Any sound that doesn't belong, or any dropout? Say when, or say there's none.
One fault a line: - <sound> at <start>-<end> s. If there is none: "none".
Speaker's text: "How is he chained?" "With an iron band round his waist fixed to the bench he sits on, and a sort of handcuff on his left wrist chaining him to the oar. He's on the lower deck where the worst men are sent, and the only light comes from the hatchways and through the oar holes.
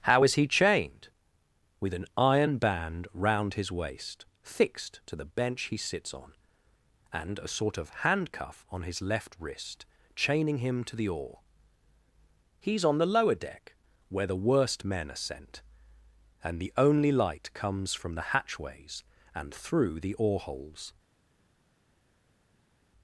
none